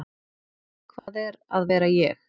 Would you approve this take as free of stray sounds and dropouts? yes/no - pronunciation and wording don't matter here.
no